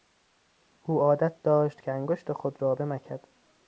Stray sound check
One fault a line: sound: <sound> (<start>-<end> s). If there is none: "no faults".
no faults